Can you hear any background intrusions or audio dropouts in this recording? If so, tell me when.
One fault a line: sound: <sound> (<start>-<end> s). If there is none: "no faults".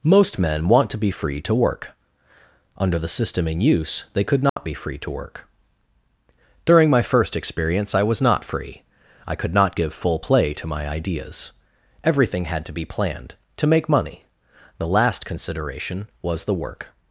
sound: dropout (4.5-4.6 s)